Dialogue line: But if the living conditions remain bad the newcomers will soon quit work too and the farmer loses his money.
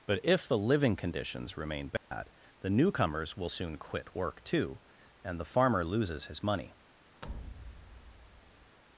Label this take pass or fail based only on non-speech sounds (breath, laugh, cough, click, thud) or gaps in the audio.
fail